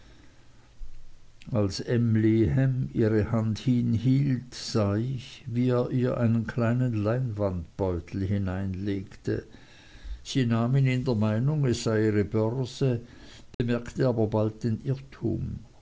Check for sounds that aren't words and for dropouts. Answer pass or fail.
fail